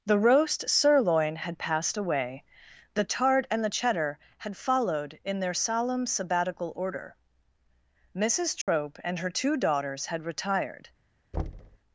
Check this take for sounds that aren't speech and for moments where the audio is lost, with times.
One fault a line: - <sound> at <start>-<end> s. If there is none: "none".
- dropout at 8.6-8.7 s
- thud at 11.3-11.8 s